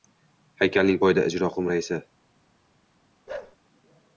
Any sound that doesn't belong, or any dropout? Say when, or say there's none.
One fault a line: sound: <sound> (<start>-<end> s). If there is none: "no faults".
sound: bark (3.3-3.6 s)